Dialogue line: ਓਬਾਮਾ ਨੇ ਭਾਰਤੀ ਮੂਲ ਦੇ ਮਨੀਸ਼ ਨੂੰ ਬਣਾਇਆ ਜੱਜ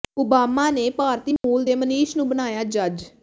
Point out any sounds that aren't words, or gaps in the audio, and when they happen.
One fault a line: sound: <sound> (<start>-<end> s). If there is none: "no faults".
sound: dropout (1.4-1.4 s)